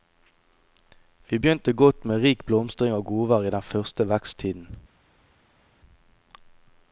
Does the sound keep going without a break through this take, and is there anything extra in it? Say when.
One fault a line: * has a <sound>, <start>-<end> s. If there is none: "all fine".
all fine